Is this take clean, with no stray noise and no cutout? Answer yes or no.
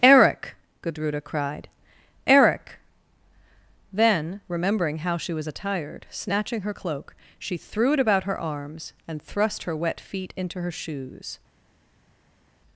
yes